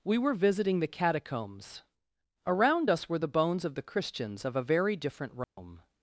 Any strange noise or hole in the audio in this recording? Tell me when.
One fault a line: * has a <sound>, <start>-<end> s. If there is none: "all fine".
* has a dropout, 5.4-5.6 s